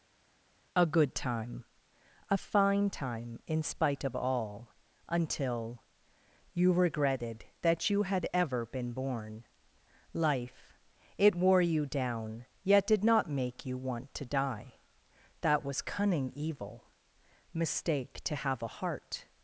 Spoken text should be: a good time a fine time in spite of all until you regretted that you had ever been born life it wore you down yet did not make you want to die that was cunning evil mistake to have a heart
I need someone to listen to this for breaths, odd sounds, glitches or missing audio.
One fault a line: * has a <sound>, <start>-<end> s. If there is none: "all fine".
all fine